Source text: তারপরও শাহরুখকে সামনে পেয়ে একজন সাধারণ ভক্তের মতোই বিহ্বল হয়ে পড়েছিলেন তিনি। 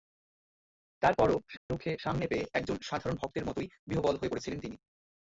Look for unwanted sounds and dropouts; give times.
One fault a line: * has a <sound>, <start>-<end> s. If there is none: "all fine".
* has a dropout, 1.6-1.7 s